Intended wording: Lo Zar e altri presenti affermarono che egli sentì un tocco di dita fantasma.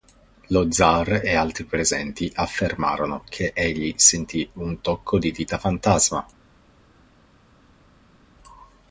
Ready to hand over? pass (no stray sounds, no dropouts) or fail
pass